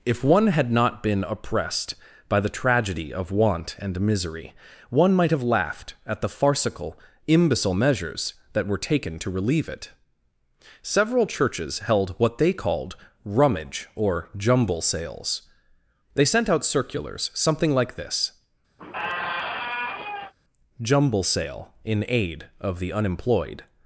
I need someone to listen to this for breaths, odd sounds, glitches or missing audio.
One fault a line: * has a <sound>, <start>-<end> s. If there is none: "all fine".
* has a squeak, 18.8-20.3 s